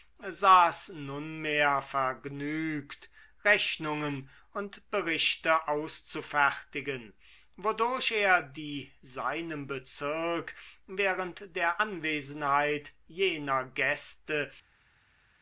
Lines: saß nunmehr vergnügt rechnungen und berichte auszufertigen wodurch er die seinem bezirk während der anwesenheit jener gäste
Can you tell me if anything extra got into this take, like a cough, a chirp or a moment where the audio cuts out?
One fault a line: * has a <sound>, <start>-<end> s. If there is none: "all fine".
all fine